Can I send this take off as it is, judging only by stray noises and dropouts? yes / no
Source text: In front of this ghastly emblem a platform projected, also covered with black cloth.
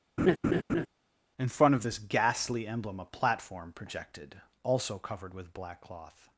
no